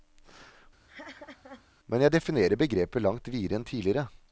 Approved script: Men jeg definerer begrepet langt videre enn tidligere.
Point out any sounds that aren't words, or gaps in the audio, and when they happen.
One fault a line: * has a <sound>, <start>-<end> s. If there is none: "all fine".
* has a laugh, 0.9-1.7 s